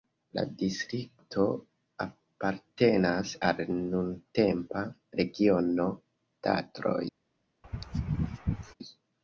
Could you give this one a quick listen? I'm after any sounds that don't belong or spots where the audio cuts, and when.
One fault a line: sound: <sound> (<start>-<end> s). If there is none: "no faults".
sound: sneeze (7.6-8.7 s)